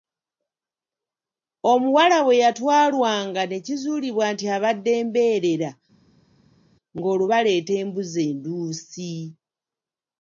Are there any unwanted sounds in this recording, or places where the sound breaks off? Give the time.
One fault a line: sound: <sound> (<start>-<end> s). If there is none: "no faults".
no faults